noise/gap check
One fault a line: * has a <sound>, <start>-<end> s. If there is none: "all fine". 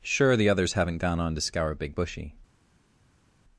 all fine